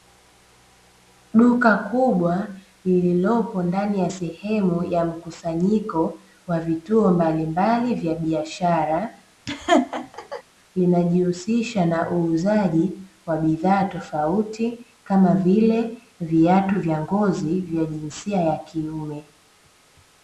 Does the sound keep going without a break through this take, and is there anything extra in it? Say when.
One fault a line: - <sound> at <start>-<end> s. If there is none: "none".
- laugh at 9.5-10.4 s